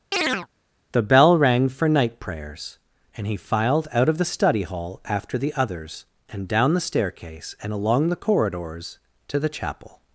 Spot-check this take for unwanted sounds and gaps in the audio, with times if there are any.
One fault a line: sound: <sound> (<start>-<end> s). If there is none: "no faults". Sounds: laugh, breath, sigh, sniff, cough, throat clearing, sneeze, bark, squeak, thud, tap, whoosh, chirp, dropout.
sound: chirp (0.1-0.5 s)